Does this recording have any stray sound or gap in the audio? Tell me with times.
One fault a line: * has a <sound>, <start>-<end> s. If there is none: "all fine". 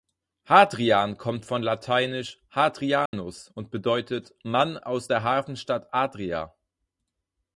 * has a dropout, 3.1-3.1 s